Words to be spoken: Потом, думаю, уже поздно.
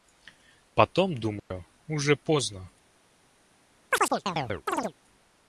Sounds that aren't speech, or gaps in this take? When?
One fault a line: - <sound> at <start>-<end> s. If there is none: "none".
- dropout at 1.4-1.5 s
- chirp at 3.9-4.9 s